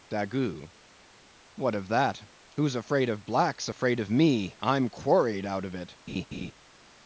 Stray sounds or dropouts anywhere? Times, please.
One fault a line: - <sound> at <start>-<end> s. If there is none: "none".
- laugh at 6.1-6.5 s